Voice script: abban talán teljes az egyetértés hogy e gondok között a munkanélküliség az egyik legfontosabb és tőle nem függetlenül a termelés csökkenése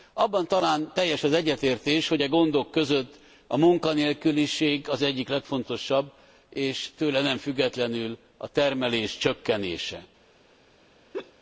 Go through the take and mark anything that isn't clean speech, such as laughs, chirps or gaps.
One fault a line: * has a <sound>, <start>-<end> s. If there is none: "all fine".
* has a laugh, 11.1-11.3 s